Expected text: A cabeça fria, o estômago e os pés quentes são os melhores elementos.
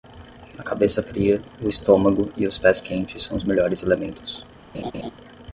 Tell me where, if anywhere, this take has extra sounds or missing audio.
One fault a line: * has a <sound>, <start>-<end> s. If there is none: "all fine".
* has a laugh, 4.7-5.1 s